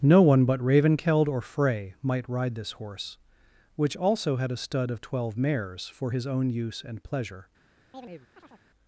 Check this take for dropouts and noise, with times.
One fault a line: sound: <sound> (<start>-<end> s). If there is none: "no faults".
sound: chirp (7.9-8.7 s)